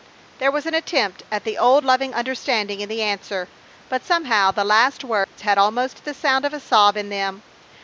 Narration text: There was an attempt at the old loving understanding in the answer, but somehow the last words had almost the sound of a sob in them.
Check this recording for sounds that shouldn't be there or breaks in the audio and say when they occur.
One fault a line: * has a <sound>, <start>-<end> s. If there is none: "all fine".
* has a dropout, 5.2-5.4 s